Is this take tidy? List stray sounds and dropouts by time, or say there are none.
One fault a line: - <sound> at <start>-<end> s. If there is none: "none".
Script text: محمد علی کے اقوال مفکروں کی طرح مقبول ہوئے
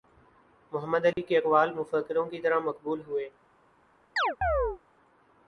- dropout at 1.1-1.2 s
- chirp at 4.2-4.8 s